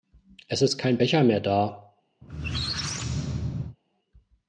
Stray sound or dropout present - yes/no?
yes